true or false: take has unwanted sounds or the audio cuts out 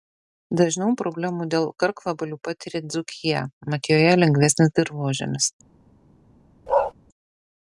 true